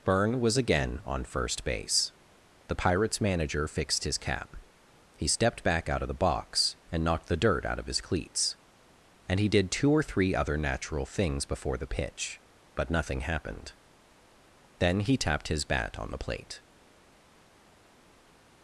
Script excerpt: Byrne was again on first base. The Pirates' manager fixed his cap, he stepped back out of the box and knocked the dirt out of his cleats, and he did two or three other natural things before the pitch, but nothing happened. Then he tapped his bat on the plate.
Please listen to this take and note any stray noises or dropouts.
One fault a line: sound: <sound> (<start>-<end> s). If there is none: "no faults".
no faults